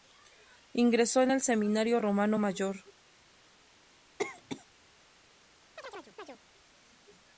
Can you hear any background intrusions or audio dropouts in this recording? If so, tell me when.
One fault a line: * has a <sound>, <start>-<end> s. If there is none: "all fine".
* has a cough, 4.2-4.6 s
* has a chirp, 5.8-6.4 s